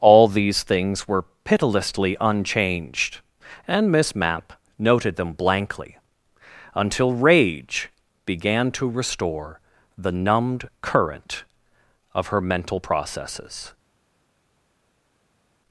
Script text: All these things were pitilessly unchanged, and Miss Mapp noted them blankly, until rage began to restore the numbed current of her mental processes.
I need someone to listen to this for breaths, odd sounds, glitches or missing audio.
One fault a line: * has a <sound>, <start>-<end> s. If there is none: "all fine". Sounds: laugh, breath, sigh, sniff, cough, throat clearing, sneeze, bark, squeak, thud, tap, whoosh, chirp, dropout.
all fine